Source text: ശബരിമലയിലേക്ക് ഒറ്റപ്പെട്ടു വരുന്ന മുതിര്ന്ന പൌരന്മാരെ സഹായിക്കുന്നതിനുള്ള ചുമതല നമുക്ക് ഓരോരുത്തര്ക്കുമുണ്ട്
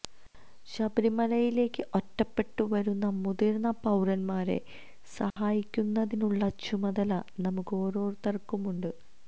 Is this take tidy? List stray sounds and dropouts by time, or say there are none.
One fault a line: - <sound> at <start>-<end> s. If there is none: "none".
- dropout at 5.3-5.4 s